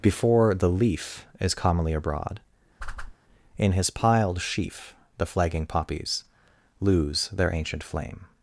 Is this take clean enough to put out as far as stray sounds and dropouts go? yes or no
no